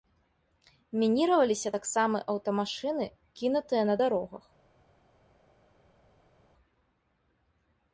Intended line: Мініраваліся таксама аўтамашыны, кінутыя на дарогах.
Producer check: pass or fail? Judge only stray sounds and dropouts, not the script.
pass